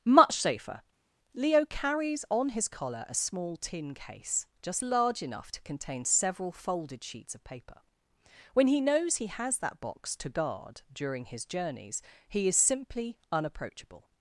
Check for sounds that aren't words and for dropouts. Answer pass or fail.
pass